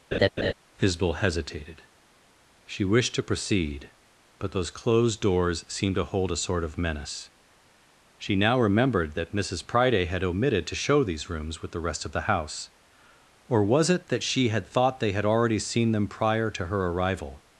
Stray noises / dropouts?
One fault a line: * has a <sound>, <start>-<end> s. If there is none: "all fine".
* has a laugh, 0.1-0.5 s